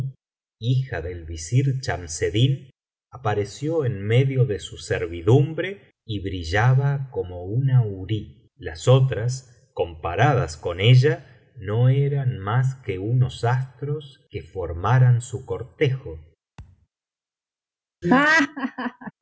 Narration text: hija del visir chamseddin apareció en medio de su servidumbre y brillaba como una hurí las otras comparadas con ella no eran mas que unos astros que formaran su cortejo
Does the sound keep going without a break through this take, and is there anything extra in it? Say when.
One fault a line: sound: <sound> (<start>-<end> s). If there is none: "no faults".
sound: thud (16.6-16.9 s)
sound: laugh (18.0-19.1 s)